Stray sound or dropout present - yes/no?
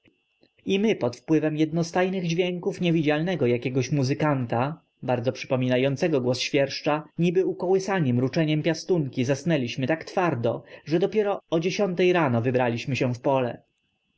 no